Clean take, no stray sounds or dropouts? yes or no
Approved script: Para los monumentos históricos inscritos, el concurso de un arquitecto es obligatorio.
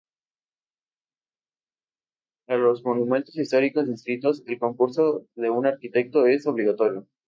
yes